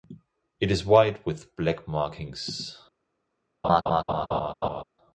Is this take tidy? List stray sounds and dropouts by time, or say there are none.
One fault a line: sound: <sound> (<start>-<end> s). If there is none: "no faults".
sound: laugh (3.6-4.8 s)